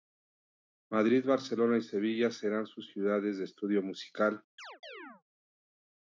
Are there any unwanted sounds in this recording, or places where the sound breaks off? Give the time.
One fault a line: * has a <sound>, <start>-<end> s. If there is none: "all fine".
* has a chirp, 4.6-5.2 s